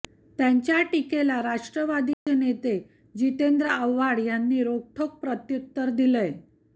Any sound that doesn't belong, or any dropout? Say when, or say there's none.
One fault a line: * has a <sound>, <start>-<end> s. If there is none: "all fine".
* has a dropout, 2.1-2.3 s